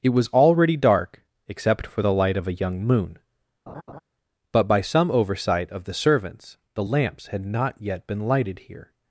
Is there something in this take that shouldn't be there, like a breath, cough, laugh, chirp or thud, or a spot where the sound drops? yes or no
yes